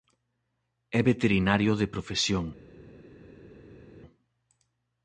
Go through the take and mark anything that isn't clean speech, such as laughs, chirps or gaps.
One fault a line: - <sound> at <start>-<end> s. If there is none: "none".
none